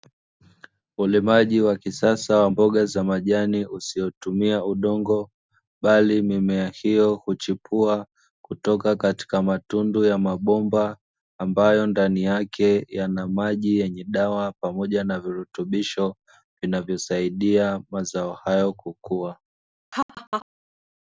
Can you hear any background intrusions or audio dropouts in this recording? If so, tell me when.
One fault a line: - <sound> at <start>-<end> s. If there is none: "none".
- laugh at 19.9-20.5 s